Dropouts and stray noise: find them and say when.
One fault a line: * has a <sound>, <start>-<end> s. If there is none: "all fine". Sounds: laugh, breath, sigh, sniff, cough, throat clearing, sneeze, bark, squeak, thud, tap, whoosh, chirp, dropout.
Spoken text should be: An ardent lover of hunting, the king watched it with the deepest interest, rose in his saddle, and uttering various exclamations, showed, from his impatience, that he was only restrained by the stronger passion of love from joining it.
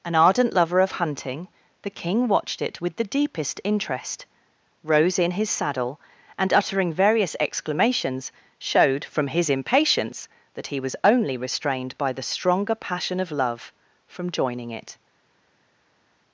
all fine